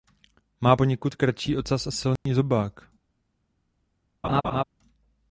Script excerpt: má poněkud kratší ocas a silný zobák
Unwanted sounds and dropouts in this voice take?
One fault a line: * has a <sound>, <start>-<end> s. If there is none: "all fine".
* has a dropout, 2.2-2.3 s
* has a laugh, 4.2-4.6 s